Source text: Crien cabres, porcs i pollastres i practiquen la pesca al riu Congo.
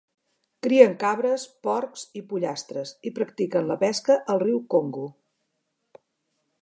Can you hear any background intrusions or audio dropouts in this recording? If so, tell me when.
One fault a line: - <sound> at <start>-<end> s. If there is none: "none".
none